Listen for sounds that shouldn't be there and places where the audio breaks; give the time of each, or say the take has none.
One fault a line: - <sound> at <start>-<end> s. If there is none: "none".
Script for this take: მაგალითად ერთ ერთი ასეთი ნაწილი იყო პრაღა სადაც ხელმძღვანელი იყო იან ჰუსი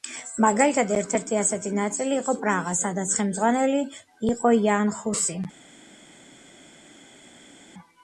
none